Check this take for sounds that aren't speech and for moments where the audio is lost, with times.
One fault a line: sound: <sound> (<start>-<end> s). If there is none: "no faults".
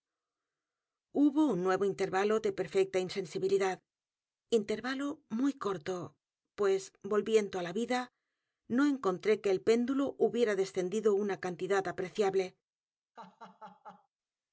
sound: laugh (13.2-14.1 s)